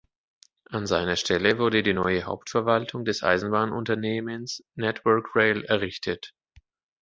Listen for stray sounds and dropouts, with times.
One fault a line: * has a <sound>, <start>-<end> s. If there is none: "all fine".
all fine